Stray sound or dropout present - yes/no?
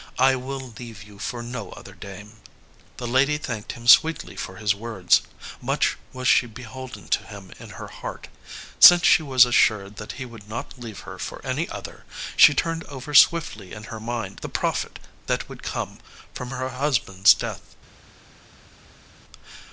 no